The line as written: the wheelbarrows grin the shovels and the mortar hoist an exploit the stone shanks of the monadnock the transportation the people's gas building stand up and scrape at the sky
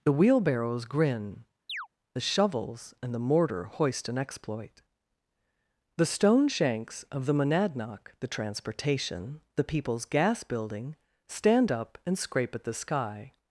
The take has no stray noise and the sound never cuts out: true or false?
false